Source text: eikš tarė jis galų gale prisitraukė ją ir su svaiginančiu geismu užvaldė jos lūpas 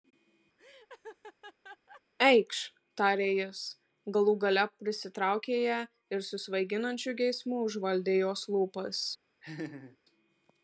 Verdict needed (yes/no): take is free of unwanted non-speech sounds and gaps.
no